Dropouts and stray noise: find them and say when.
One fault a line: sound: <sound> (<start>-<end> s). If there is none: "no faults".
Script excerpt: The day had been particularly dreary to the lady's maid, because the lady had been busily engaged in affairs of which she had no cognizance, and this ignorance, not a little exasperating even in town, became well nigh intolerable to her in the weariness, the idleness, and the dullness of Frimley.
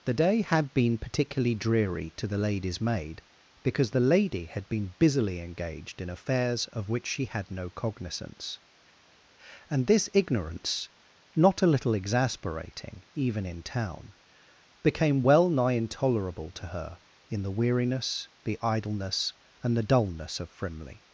no faults